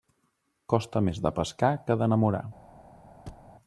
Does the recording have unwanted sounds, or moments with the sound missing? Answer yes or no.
yes